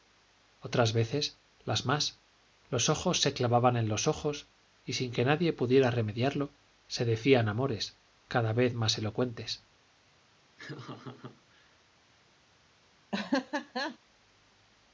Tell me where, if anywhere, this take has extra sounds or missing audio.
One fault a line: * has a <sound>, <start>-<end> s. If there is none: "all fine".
* has a laugh, 10.6-11.8 s
* has a laugh, 13.1-14.0 s